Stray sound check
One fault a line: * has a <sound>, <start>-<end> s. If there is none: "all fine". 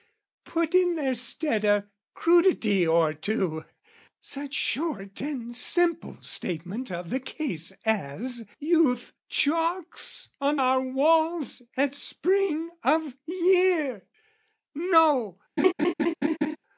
* has a laugh, 15.6-16.6 s